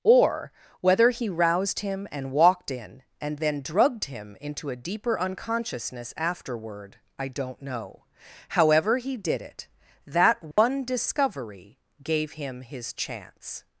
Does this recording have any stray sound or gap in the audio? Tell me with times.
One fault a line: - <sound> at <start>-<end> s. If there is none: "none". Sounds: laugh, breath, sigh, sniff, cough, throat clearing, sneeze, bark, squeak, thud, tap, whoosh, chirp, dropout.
- dropout at 10.5-10.6 s